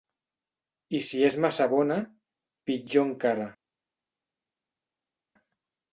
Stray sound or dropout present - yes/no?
no